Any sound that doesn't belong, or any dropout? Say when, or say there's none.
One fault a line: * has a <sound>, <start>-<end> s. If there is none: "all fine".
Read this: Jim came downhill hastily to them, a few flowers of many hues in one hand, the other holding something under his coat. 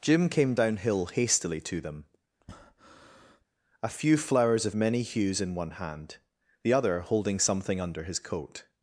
* has a breath, 2.4-3.4 s